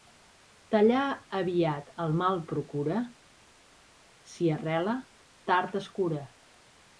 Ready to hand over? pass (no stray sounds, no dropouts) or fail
pass